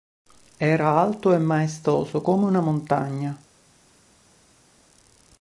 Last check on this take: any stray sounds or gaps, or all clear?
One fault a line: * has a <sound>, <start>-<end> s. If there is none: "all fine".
all fine